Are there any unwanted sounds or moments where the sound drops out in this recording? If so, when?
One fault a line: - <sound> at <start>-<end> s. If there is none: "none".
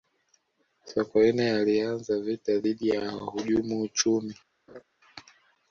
- laugh at 4.7-4.8 s